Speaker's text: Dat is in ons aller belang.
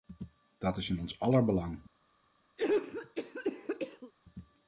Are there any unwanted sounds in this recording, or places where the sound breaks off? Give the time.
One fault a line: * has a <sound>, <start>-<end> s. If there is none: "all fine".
* has a cough, 2.6-4.1 s